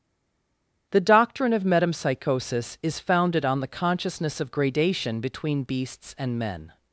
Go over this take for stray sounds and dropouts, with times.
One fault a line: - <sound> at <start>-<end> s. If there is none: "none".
none